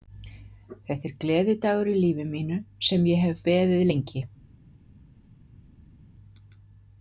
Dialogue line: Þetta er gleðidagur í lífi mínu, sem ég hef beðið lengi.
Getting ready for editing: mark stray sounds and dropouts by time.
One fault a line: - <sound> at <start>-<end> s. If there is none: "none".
none